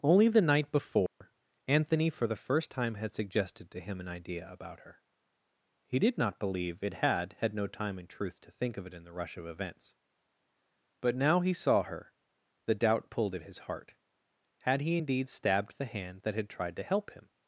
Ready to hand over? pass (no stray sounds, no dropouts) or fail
fail